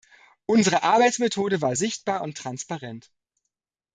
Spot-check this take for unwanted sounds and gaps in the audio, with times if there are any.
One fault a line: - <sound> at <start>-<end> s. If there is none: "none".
none